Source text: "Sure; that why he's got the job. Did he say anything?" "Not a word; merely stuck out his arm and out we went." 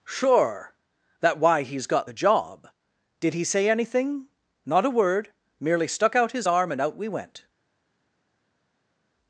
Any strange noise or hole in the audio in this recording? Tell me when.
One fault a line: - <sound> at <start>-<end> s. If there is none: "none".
none